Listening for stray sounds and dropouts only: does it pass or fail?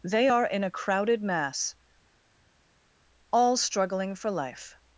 pass